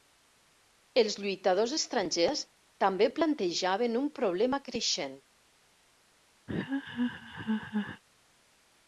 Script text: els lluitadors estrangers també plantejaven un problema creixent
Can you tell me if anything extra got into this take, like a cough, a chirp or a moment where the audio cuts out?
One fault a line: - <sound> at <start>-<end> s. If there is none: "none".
- laugh at 6.5-8.0 s